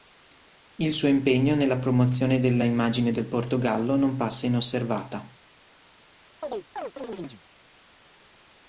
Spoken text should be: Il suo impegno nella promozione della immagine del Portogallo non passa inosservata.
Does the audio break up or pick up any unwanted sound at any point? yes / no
yes